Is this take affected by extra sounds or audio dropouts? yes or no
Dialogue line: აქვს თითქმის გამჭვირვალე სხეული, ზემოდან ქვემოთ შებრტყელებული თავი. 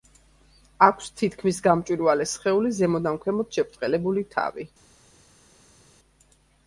no